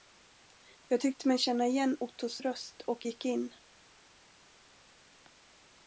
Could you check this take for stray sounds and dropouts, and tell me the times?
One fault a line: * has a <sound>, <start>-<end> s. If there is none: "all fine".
all fine